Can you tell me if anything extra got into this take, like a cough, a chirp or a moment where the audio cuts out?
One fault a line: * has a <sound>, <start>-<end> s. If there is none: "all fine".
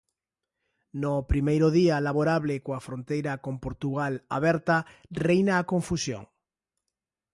all fine